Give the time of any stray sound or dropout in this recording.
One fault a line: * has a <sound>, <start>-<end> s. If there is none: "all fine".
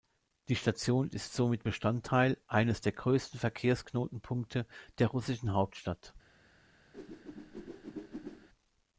* has a whoosh, 6.9-8.5 s